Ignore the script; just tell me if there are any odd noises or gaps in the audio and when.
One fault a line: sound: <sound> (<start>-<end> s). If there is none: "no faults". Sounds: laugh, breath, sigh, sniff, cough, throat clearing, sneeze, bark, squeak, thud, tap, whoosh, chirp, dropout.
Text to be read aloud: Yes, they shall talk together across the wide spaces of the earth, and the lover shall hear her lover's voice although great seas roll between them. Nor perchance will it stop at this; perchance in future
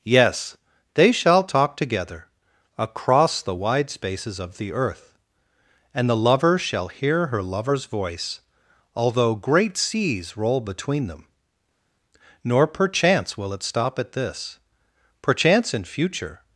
no faults